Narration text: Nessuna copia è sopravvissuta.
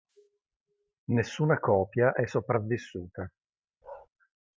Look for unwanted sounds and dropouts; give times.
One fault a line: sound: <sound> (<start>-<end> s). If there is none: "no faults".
sound: bark (3.8-4.1 s)